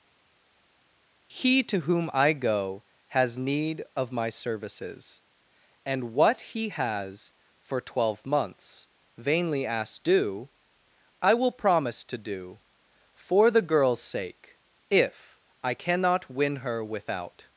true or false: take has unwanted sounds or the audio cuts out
false